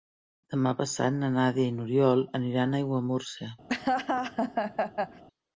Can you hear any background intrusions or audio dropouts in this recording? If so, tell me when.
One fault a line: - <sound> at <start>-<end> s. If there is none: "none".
- laugh at 3.7-5.2 s